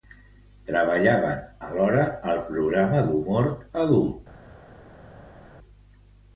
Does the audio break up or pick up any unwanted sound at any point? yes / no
no